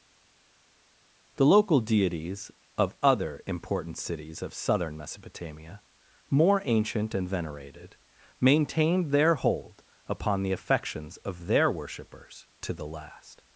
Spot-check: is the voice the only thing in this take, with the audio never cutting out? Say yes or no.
yes